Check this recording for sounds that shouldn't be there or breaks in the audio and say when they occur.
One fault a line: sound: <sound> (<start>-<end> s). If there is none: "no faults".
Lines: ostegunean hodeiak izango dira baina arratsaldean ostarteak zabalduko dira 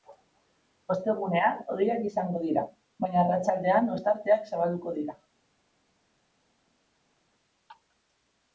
no faults